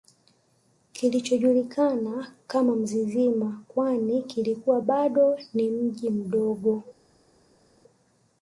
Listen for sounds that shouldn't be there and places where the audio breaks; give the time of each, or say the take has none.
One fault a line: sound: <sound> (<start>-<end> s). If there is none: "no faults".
no faults